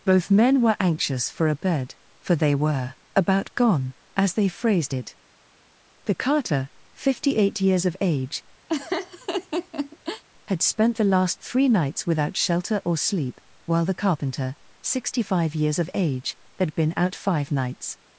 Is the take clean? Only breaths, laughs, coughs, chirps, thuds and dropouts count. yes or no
no